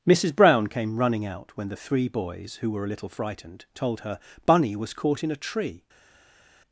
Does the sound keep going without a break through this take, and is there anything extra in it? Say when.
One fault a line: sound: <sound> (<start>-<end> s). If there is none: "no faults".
no faults